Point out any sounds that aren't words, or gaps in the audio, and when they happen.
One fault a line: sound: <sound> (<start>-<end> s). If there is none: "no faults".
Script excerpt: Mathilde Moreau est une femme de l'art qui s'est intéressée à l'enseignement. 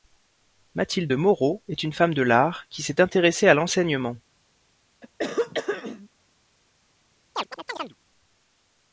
sound: throat clearing (5.0-6.1 s)
sound: chirp (7.4-8.0 s)